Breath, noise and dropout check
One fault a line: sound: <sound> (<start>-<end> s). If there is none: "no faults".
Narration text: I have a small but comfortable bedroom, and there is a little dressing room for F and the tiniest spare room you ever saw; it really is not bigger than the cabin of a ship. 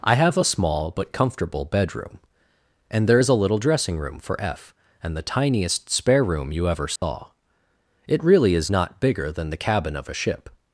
sound: dropout (7.0-7.0 s)